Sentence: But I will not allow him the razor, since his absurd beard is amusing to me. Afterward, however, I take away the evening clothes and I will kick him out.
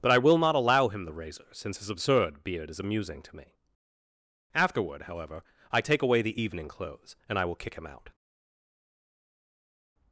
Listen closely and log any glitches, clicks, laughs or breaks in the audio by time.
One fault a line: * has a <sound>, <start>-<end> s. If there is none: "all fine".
all fine